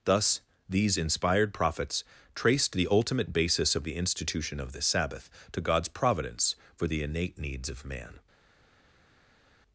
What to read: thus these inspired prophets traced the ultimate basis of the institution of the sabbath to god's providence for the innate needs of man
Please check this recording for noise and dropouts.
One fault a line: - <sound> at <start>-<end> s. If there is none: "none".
none